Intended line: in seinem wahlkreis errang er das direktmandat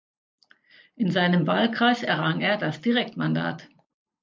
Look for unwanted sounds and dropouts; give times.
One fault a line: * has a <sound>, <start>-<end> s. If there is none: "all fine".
all fine